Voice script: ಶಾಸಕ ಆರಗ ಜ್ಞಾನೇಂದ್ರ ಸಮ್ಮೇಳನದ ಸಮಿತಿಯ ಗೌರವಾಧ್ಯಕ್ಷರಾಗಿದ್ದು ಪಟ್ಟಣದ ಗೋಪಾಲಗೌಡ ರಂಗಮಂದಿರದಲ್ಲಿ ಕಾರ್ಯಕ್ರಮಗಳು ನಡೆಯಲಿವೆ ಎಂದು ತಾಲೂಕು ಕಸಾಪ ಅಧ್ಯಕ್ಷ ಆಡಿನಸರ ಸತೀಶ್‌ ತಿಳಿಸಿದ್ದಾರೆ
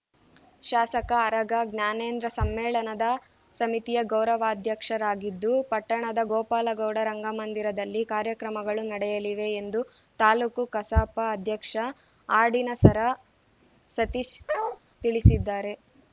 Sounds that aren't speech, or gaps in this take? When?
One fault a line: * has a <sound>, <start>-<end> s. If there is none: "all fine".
* has a bark, 14.5-14.8 s